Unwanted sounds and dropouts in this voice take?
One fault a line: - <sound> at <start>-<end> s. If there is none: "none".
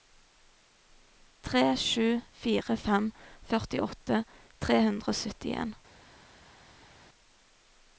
none